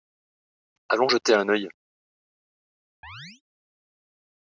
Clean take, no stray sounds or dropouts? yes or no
no